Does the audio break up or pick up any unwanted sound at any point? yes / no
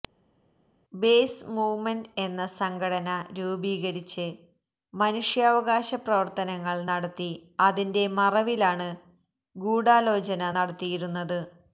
no